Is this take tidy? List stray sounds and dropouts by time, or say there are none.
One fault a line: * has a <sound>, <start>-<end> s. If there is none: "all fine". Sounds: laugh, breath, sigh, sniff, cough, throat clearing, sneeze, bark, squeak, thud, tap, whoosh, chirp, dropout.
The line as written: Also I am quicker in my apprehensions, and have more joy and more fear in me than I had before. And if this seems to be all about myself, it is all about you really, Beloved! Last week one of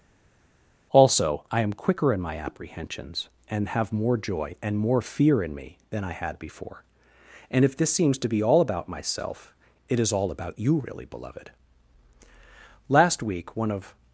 all fine